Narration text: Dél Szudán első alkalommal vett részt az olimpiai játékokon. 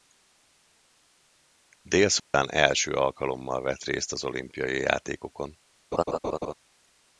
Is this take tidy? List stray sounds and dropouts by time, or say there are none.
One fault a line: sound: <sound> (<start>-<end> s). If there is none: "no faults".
sound: dropout (2.2-2.3 s)
sound: laugh (5.9-6.5 s)